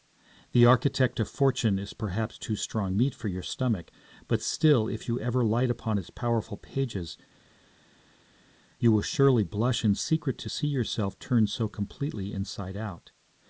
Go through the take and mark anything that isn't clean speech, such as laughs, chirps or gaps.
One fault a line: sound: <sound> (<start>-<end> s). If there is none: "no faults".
no faults